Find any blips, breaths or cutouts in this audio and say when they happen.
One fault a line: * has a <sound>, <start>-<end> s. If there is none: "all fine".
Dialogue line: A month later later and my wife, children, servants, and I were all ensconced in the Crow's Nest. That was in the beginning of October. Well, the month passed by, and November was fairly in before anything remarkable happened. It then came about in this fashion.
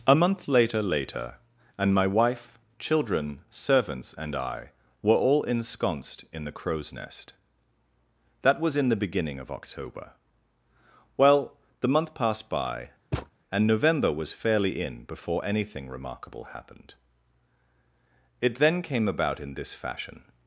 * has a thud, 13.1-13.3 s